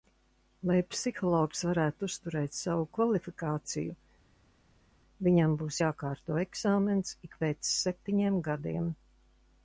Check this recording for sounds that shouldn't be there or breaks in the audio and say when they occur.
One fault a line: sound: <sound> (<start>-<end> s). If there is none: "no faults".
no faults